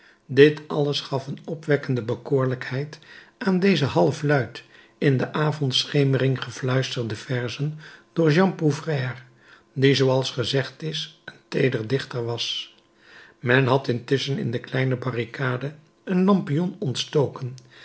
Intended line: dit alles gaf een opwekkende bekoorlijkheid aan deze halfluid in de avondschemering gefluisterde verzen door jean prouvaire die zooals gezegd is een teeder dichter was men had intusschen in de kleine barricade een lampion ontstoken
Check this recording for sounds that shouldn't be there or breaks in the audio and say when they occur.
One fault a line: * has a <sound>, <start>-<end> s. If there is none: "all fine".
all fine